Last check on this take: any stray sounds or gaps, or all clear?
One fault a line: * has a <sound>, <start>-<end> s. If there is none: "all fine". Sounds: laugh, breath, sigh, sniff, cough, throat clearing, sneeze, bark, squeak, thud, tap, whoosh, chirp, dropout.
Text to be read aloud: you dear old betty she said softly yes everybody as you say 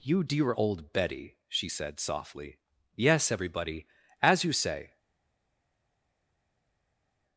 all fine